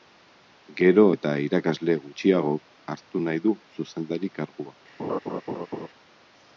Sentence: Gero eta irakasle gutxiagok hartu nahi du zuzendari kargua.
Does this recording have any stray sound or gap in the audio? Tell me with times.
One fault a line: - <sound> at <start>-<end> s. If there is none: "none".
- laugh at 5.0-5.9 s